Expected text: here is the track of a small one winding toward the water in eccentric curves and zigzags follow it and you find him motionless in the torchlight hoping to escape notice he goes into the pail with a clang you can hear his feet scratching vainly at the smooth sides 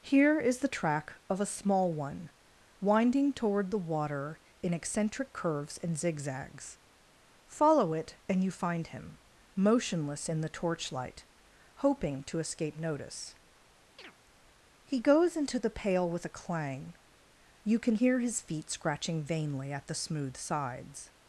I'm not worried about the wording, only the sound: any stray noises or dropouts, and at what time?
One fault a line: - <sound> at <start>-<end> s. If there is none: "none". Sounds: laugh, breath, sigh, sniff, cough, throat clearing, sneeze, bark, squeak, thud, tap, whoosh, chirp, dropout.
- chirp at 14.0-14.1 s